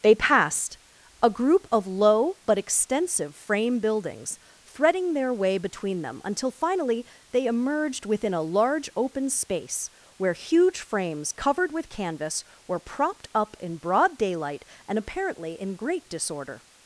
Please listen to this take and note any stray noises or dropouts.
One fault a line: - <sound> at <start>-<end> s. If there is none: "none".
none